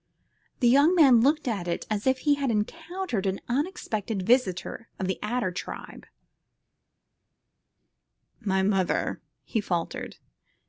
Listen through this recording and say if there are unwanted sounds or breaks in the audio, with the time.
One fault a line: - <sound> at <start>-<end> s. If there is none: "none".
none